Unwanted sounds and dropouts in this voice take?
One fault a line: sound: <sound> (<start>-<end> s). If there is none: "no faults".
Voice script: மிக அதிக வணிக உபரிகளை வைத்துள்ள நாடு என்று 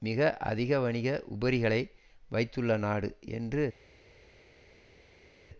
no faults